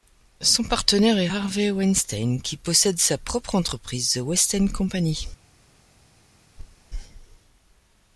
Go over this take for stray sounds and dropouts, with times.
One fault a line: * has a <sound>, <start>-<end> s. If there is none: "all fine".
* has a thud, 6.6-6.9 s